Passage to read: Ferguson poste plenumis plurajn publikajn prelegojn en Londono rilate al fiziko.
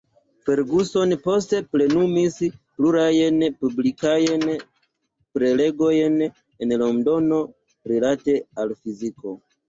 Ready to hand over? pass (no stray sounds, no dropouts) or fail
pass